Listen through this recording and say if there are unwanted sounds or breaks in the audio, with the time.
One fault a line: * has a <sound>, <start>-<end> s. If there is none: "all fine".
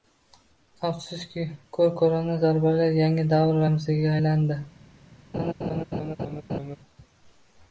* has a laugh, 5.3-6.8 s